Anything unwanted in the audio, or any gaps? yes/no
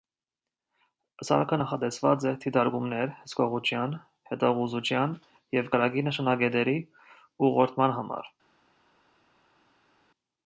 no